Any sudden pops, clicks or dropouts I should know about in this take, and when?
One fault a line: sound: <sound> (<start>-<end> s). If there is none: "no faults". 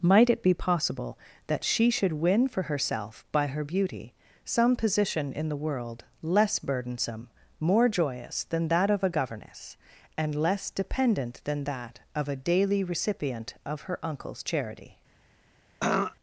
sound: throat clearing (15.8-16.2 s)